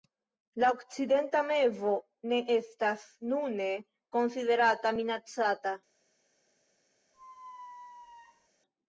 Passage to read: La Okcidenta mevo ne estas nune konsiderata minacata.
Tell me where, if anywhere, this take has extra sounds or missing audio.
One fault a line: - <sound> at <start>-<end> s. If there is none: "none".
- squeak at 7.1-8.5 s